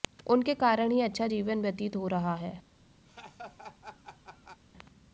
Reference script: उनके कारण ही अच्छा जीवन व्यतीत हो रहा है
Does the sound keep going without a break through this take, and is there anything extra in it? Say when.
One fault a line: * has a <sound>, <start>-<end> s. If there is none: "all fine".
* has a laugh, 3.1-4.6 s